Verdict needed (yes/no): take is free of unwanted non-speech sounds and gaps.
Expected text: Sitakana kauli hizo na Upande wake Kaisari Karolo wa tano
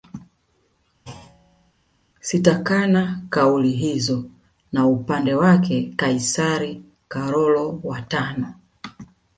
no